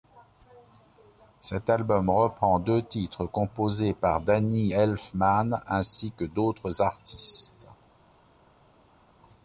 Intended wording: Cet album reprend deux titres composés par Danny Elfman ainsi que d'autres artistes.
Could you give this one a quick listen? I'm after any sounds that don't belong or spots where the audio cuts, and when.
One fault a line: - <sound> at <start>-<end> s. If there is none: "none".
none